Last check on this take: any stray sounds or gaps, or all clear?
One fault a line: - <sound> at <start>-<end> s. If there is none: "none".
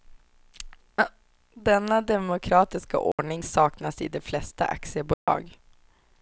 - dropout at 3.1-3.2 s
- dropout at 5.1-5.3 s